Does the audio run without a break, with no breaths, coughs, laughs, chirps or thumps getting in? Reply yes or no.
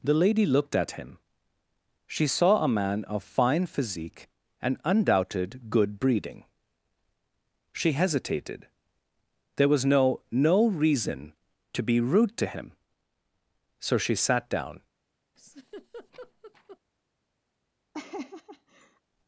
no